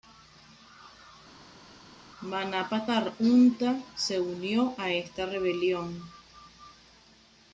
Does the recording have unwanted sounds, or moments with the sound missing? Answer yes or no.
no